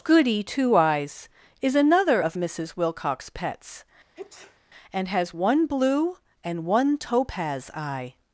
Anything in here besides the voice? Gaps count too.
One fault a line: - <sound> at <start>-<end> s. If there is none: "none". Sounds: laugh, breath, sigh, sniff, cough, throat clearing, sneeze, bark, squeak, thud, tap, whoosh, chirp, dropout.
- sneeze at 4.1-4.6 s